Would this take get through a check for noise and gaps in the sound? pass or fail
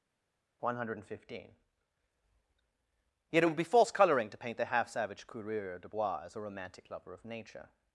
pass